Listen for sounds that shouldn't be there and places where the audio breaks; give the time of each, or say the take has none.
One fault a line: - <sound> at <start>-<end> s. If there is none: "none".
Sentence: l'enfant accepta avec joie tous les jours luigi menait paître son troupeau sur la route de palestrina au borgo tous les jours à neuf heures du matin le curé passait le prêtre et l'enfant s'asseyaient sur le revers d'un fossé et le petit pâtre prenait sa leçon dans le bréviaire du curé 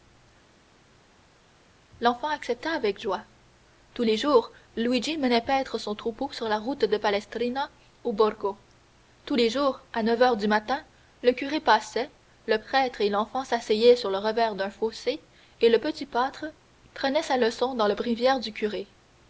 none